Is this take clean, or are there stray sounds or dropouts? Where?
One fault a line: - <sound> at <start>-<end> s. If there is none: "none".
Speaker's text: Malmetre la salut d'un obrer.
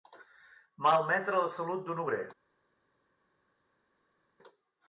none